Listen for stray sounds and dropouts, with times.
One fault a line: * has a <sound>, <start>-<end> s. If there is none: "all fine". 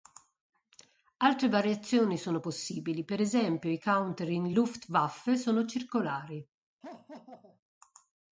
* has a laugh, 6.8-7.6 s